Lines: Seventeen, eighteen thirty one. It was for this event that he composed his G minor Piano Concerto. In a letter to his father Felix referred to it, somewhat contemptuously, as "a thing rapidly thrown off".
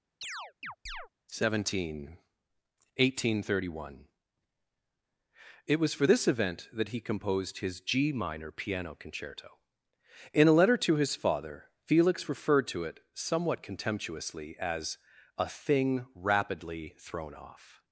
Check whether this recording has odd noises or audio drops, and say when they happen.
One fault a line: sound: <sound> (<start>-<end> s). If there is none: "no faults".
sound: chirp (0.2-1.1 s)